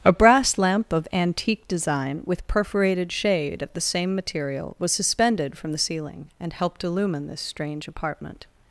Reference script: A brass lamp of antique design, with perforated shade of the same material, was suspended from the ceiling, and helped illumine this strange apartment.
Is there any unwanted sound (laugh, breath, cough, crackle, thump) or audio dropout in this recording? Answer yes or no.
no